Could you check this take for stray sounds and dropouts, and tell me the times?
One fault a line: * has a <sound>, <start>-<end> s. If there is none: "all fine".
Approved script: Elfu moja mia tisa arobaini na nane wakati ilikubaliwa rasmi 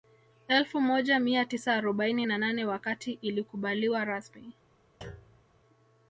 * has a thud, 5.0-5.5 s